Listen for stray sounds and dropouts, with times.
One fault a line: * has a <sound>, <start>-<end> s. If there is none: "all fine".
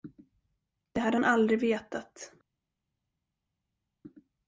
all fine